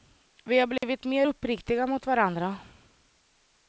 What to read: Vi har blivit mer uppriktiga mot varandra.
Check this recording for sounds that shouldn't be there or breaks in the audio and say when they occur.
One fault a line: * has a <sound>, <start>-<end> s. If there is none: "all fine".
* has a dropout, 0.8-0.8 s